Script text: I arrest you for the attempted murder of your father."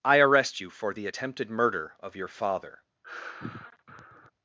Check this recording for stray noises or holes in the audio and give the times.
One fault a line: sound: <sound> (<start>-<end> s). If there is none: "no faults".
sound: sigh (3.0-4.3 s)